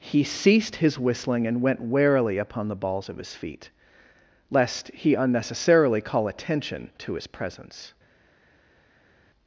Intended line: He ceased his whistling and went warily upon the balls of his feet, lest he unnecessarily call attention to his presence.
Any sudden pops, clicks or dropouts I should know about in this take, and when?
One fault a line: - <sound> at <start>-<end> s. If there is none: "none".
none